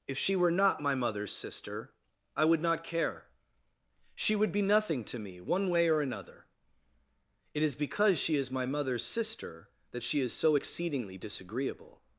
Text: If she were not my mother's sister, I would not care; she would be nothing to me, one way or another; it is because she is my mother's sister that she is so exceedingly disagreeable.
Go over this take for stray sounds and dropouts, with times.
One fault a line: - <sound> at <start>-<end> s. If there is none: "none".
none